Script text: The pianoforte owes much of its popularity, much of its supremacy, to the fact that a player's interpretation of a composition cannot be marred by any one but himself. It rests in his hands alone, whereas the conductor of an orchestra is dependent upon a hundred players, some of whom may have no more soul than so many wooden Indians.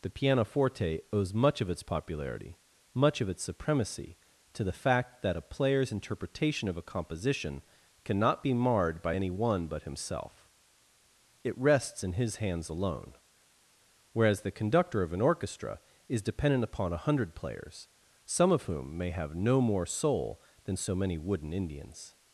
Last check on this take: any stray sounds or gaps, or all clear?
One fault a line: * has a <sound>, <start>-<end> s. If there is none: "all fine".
all fine